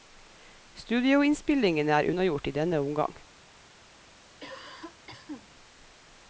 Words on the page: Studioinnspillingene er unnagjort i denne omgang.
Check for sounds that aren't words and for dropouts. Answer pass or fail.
fail